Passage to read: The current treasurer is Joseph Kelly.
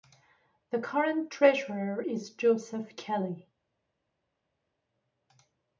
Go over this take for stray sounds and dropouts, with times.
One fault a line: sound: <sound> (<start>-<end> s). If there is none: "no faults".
no faults